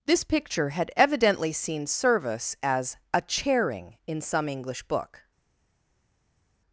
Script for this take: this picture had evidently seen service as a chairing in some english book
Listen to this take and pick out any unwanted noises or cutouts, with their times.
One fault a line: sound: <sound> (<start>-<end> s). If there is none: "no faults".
no faults